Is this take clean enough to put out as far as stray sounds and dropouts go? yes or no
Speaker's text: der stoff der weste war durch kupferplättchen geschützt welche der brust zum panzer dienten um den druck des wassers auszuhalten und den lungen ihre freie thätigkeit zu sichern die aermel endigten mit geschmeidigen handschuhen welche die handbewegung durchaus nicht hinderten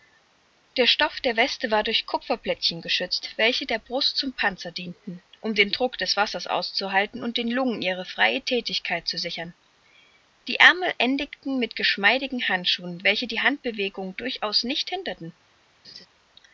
no